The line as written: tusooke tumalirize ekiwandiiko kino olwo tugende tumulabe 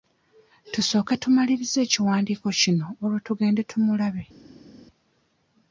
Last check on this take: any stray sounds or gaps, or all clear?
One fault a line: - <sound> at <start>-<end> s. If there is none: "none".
none